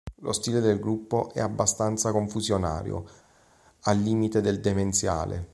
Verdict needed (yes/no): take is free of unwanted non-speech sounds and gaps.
yes